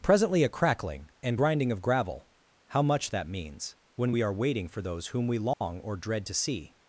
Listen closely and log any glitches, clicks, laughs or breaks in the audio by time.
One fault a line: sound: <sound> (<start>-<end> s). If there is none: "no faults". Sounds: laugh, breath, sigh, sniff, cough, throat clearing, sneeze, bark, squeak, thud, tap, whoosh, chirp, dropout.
sound: dropout (5.5-5.6 s)